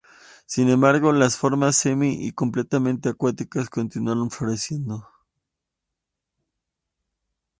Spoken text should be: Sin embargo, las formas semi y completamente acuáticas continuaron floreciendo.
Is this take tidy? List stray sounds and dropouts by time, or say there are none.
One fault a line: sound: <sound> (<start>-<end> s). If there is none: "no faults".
no faults